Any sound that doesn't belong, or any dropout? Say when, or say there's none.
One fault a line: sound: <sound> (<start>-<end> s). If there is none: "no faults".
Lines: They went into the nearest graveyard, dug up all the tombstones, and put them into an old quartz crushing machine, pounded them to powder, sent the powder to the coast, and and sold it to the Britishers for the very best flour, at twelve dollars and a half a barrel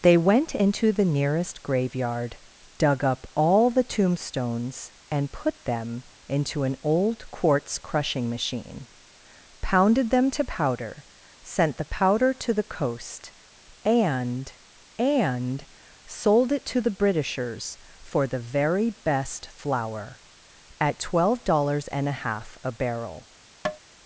sound: tap (23.6-23.8 s)